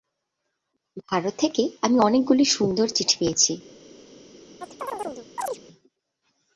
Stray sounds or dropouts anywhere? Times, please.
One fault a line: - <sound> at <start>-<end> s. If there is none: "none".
- chirp at 4.6-5.6 s